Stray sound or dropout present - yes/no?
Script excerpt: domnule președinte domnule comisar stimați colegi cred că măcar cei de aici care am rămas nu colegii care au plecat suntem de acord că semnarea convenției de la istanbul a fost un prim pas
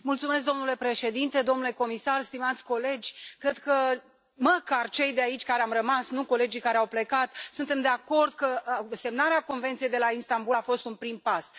no